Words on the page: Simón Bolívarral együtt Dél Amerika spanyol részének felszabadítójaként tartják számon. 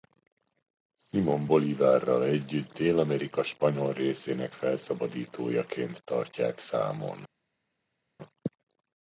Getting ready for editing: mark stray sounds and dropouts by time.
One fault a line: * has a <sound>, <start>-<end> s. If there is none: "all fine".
all fine